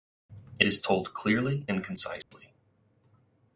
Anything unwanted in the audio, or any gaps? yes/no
yes